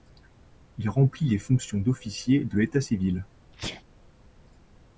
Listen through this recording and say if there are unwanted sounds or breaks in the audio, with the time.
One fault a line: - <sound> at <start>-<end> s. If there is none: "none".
- sneeze at 3.5-3.8 s